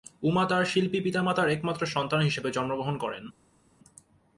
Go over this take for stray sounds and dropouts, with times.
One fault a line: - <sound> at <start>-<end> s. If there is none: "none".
none